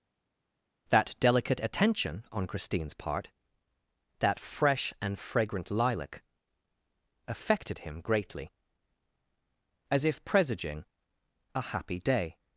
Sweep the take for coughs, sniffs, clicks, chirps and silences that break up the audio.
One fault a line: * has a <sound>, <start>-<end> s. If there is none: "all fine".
all fine